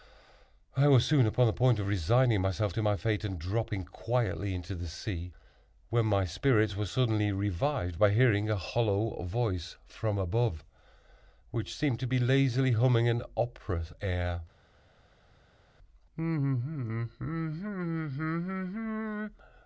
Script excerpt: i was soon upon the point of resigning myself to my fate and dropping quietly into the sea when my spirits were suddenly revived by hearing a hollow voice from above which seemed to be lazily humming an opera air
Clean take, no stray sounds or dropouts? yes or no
yes